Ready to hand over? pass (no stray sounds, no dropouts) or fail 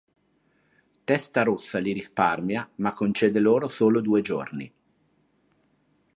pass